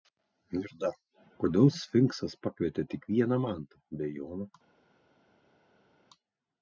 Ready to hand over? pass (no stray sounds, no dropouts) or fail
pass